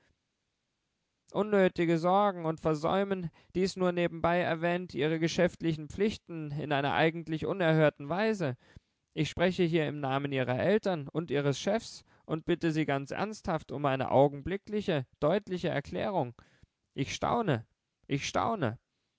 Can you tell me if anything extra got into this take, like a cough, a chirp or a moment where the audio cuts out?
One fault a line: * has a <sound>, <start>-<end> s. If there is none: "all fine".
all fine